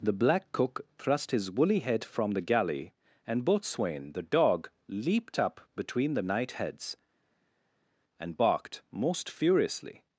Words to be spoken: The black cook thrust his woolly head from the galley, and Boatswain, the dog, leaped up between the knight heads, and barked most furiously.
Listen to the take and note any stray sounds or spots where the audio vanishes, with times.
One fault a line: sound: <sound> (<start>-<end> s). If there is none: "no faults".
no faults